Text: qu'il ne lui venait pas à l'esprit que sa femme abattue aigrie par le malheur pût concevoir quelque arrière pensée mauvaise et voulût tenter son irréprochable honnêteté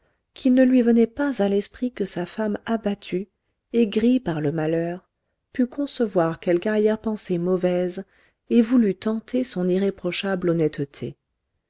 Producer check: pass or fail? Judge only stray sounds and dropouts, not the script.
pass